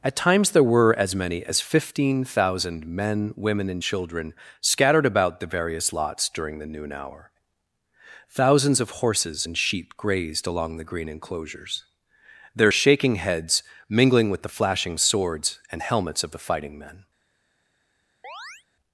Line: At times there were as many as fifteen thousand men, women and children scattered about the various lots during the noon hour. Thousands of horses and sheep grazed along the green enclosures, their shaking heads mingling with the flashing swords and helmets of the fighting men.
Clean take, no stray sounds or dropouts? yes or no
no